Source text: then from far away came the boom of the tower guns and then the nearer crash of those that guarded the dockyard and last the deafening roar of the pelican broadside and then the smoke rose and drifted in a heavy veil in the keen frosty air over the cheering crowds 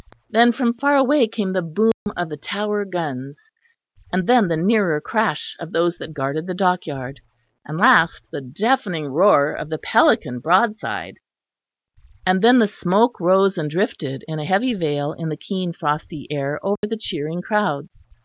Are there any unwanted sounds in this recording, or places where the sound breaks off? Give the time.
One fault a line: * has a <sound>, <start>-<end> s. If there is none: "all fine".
* has a dropout, 1.9-2.1 s
* has a dropout, 16.8-16.8 s